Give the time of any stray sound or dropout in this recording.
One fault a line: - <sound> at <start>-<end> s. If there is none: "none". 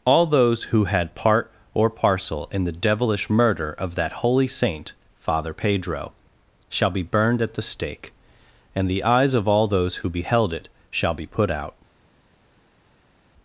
none